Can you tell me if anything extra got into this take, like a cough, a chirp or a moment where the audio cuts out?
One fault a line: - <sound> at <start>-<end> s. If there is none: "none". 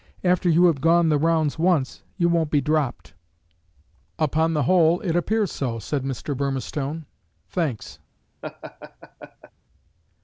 - laugh at 8.4-9.5 s